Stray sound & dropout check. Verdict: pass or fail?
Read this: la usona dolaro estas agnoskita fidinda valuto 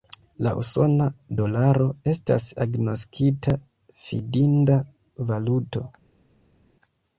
pass